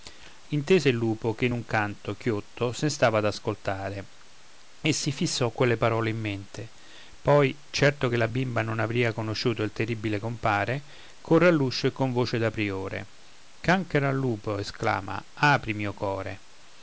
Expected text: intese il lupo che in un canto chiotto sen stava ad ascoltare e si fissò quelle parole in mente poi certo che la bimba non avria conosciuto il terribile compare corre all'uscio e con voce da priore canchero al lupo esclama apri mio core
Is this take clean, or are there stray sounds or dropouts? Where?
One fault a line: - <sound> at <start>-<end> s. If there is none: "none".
none